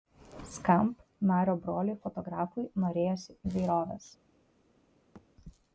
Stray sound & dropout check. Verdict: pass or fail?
fail